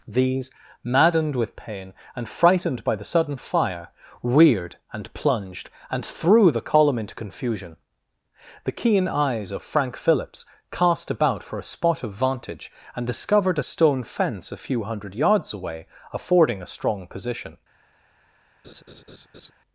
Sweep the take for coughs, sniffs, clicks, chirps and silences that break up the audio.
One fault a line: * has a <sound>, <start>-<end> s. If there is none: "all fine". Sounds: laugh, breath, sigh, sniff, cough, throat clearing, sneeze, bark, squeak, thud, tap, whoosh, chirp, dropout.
* has a laugh, 18.6-19.5 s